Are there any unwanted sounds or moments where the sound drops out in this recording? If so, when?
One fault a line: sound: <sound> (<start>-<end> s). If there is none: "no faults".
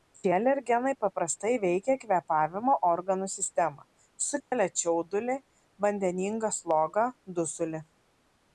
sound: dropout (4.4-4.5 s)